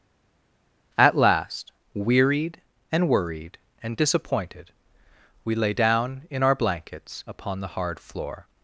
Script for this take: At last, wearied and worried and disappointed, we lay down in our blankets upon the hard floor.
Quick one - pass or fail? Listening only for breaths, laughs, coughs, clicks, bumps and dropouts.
pass